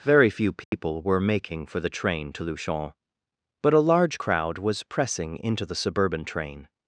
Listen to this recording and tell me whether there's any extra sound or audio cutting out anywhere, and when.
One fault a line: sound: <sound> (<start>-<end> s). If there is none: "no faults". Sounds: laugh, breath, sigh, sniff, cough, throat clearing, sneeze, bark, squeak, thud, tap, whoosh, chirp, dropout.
sound: dropout (0.6-0.7 s)